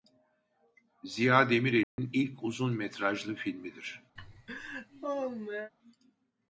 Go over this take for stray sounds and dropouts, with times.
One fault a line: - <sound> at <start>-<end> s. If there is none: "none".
- dropout at 1.8-2.0 s
- laugh at 4.2-5.7 s